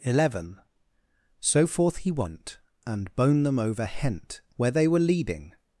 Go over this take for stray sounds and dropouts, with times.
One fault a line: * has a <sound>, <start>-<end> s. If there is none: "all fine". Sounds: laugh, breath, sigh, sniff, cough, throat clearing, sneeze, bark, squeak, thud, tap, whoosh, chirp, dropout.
all fine